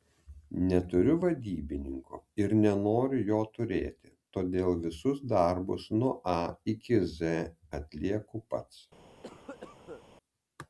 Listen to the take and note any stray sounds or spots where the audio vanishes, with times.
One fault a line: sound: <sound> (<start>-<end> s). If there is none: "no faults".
sound: cough (9.2-10.1 s)